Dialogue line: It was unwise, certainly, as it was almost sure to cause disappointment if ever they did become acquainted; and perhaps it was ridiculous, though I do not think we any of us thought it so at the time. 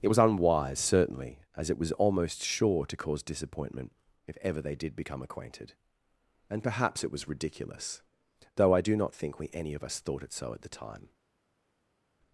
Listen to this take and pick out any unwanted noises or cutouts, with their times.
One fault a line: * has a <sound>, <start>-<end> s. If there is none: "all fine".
all fine